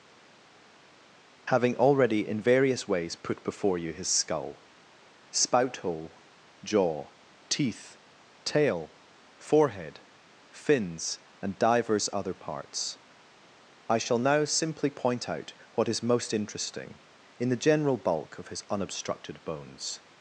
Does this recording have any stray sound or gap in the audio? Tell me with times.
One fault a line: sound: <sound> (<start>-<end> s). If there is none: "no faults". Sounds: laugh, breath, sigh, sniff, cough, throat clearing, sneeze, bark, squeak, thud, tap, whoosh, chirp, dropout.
no faults